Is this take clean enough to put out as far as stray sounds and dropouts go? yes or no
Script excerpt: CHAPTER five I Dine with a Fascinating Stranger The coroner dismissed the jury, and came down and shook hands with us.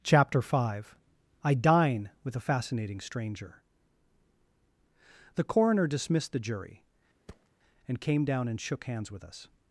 no